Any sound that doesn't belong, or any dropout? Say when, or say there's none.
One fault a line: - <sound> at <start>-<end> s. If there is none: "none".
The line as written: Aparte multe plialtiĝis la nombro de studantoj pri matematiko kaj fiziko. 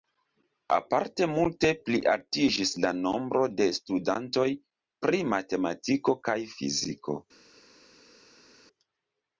none